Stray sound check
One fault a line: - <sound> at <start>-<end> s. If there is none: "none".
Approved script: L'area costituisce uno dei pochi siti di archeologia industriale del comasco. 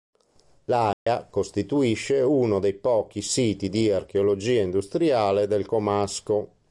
- dropout at 0.9-1.1 s